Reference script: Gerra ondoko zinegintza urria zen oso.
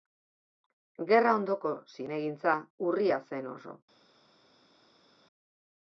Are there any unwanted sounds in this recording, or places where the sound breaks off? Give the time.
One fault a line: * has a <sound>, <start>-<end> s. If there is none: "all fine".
all fine